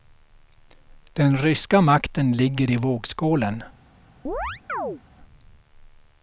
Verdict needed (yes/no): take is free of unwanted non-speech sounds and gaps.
no